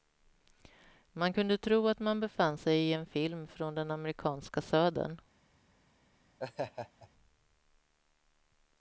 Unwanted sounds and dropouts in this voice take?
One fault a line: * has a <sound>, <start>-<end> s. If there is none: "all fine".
* has a laugh, 6.4-7.1 s